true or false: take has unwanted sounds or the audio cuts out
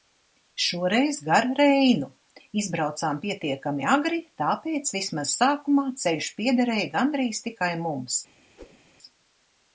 true